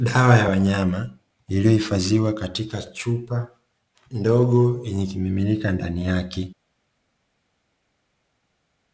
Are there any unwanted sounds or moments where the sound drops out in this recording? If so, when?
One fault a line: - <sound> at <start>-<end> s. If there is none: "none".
none